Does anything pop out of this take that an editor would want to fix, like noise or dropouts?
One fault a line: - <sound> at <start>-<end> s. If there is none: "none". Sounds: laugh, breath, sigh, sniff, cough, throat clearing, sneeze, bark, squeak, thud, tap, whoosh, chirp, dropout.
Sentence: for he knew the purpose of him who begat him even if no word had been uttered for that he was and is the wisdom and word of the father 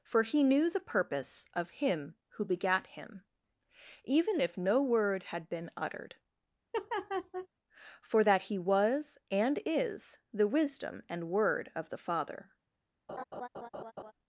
- laugh at 6.7-7.5 s
- laugh at 13.1-14.1 s